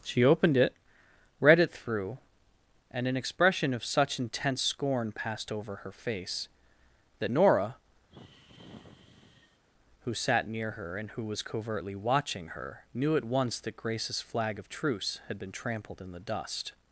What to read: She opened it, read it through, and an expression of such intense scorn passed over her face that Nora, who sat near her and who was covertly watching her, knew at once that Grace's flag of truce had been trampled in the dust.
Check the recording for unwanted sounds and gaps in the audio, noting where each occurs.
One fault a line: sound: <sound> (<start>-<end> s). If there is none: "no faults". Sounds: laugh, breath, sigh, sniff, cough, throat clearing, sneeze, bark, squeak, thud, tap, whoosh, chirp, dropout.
sound: sigh (8.1-9.6 s)